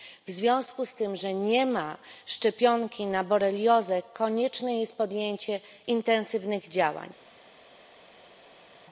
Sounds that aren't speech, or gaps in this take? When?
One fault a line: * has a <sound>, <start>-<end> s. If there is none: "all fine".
all fine